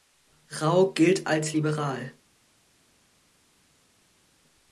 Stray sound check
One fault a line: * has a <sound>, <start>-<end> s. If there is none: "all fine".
all fine